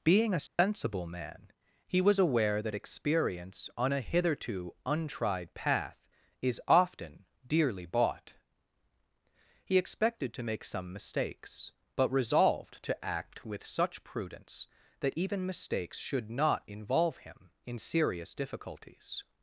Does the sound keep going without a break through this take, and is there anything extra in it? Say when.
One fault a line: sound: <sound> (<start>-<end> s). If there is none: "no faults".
sound: dropout (0.5-0.6 s)